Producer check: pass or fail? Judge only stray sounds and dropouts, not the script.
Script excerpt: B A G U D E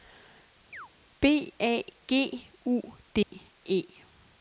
fail